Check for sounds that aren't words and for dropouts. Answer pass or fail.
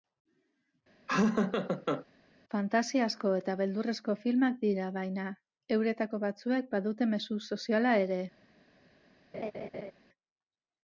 fail